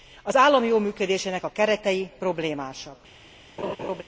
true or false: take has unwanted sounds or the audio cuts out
true